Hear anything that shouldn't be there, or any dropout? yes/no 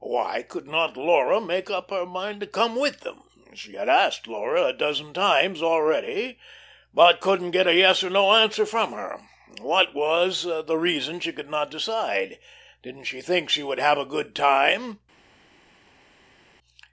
no